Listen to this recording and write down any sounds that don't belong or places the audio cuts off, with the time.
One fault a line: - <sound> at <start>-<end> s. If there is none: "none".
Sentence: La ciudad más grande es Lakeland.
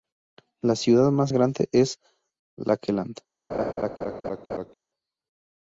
- laugh at 3.5-4.7 s